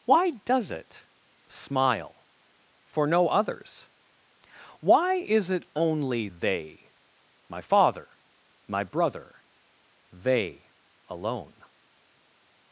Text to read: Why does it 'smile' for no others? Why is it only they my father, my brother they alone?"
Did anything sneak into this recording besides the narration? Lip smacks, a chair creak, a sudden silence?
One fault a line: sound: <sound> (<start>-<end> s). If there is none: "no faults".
no faults